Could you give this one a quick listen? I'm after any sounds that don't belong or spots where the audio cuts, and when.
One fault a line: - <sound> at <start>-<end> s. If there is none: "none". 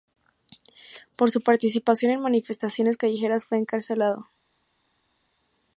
none